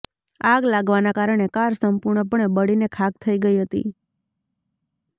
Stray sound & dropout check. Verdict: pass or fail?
pass